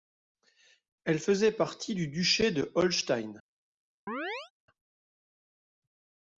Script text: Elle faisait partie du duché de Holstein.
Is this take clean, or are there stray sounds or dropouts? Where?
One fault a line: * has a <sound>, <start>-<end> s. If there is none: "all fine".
* has a chirp, 4.1-4.5 s